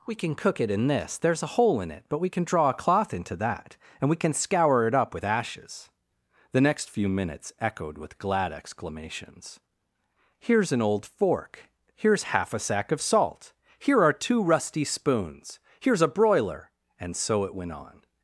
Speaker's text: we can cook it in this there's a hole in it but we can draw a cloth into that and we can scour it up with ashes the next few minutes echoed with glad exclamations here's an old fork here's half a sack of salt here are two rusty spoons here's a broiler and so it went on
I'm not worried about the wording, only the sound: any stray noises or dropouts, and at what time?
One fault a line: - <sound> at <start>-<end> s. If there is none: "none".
none